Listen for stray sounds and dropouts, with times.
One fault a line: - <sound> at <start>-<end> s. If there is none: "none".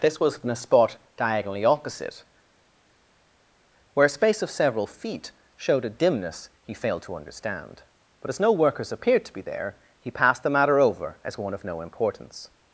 none